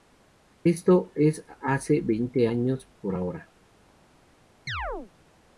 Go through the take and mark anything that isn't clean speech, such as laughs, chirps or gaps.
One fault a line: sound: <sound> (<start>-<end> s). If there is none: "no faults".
sound: chirp (4.7-5.1 s)